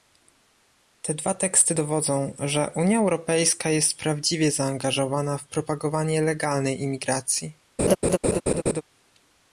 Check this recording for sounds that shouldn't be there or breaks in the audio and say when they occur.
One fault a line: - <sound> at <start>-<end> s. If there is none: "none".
- laugh at 7.8-8.8 s